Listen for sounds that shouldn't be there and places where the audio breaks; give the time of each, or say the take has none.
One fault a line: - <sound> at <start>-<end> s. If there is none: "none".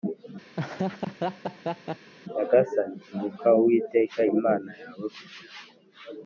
- laugh at 0.6-2.1 s